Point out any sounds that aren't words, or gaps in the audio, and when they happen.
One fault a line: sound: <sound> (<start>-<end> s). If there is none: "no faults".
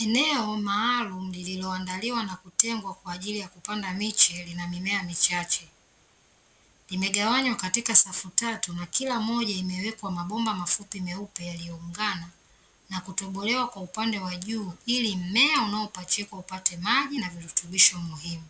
no faults